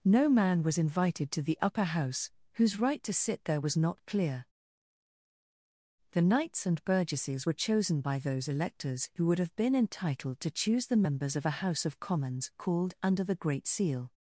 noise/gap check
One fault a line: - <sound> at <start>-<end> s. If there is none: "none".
none